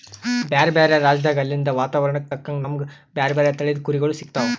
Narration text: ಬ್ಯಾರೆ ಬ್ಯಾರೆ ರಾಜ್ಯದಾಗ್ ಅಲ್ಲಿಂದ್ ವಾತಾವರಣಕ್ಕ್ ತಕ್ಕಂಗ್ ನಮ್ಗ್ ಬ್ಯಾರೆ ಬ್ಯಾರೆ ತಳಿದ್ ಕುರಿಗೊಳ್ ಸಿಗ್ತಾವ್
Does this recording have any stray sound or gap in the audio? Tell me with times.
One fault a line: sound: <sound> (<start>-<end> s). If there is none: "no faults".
no faults